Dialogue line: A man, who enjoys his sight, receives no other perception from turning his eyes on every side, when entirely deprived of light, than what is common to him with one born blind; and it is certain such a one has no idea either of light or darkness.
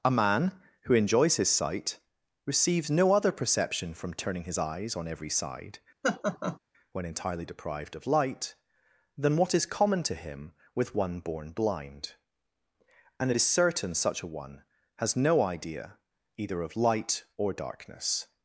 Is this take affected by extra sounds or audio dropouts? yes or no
yes